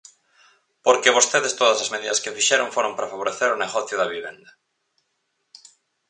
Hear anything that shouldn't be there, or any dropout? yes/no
no